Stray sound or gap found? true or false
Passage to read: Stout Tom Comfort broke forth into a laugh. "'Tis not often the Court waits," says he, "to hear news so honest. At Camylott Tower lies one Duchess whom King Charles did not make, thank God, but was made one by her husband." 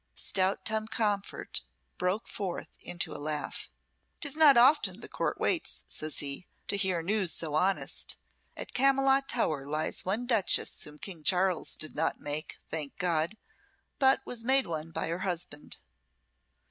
false